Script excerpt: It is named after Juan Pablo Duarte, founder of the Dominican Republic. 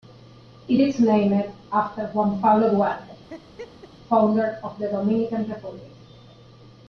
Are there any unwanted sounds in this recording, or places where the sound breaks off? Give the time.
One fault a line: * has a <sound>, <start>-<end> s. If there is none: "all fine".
* has a laugh, 3.3-3.9 s